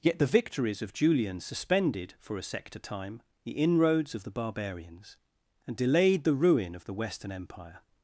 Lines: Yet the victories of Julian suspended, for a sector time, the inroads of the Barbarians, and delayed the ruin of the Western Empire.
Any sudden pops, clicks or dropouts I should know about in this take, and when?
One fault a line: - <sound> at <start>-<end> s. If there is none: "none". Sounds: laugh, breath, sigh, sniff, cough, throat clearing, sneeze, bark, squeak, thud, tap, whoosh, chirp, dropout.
none